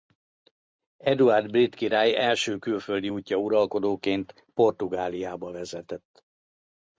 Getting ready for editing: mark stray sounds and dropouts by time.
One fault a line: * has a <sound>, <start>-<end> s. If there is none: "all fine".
all fine